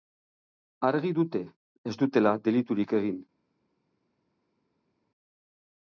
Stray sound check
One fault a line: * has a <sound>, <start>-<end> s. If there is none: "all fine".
all fine